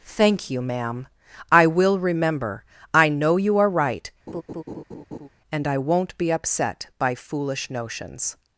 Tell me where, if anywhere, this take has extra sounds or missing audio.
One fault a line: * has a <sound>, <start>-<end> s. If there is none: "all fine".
* has a laugh, 4.3-5.3 s